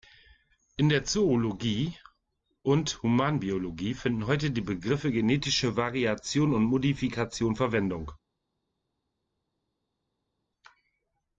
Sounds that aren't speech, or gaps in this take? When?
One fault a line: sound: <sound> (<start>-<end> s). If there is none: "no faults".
no faults